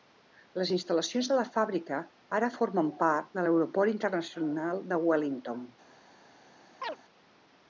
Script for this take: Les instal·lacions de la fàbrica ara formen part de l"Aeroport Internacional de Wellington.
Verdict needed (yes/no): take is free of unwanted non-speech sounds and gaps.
no